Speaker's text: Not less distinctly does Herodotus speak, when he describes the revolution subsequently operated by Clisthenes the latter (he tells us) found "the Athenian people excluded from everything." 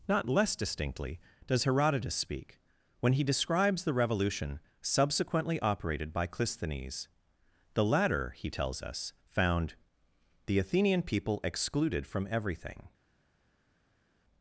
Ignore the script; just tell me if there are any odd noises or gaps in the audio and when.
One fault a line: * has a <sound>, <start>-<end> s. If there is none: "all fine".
all fine